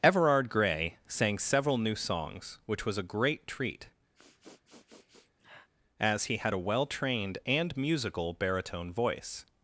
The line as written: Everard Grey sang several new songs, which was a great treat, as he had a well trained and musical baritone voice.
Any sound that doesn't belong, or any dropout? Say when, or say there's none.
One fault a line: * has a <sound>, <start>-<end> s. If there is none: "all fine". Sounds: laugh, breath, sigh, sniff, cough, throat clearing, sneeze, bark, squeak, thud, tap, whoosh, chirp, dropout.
* has a sniff, 4.1-5.7 s